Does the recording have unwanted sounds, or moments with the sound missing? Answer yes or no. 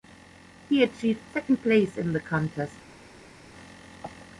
no